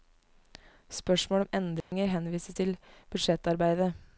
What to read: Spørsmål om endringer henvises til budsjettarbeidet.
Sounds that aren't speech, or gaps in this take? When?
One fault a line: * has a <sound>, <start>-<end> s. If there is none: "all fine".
* has a dropout, 1.8-1.9 s